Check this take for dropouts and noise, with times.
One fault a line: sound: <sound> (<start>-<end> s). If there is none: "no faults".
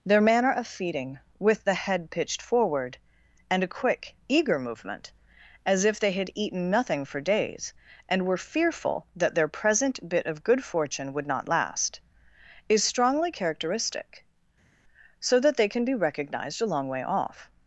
no faults